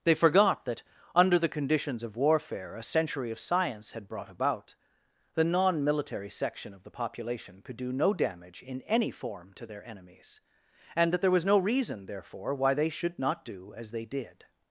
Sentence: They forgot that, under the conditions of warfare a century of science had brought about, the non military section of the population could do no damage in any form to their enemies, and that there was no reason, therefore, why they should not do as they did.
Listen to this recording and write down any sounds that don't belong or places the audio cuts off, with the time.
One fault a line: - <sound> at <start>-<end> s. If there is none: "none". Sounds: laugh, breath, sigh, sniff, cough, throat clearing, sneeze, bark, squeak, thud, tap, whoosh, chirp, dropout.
none